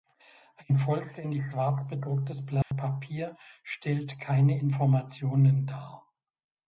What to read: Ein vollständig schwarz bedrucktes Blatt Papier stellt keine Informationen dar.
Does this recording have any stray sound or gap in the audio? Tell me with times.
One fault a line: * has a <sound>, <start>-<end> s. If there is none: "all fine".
* has a dropout, 2.6-2.7 s